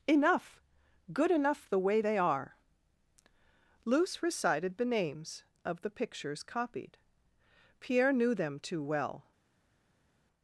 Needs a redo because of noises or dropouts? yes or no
no